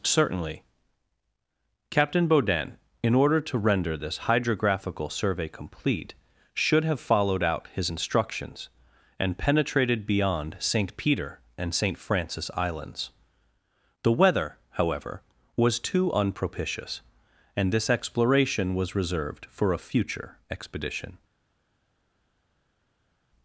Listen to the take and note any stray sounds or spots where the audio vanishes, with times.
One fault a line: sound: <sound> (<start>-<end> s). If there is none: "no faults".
no faults